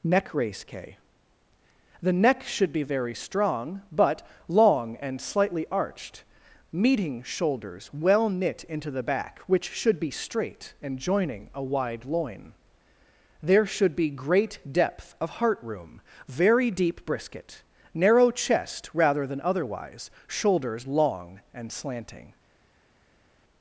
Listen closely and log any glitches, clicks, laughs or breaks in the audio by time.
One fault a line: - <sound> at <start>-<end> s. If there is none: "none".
none